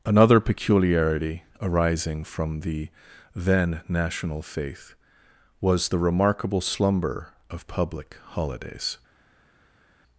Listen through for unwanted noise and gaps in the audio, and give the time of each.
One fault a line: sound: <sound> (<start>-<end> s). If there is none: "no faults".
no faults